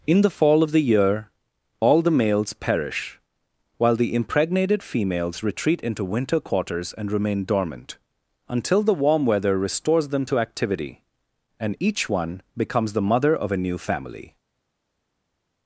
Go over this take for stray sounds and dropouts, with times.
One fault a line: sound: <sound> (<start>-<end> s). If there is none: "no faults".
no faults